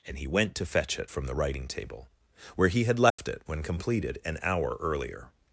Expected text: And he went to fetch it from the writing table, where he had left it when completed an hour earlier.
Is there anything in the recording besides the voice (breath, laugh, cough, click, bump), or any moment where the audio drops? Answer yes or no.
yes